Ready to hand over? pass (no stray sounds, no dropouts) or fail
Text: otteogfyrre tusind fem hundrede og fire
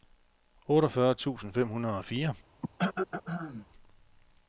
fail